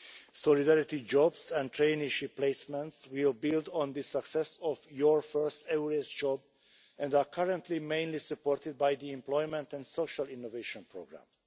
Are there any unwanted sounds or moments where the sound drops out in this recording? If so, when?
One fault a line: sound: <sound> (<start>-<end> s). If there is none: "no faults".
no faults